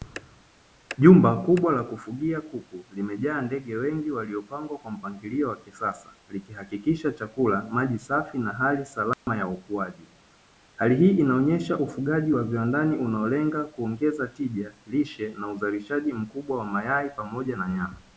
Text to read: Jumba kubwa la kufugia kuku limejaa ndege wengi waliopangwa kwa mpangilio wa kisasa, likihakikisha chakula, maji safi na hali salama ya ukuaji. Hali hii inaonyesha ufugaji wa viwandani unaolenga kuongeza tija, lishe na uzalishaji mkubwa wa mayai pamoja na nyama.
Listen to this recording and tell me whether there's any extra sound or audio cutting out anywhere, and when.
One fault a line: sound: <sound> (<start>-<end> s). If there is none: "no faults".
sound: dropout (9.1-9.3 s)